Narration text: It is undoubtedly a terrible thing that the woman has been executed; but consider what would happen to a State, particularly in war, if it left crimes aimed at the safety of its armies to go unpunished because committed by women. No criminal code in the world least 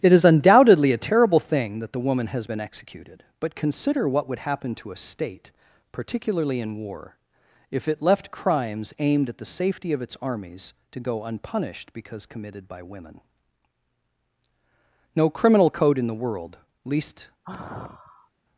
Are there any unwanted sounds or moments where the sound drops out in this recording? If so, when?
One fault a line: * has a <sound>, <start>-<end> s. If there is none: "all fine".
* has a sigh, 17.4-18.3 s